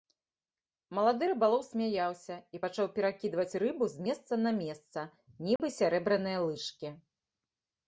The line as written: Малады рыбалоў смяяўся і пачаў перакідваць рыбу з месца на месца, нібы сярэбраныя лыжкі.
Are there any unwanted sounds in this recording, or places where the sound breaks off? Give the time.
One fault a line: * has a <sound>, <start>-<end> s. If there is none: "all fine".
* has a dropout, 5.6-5.6 s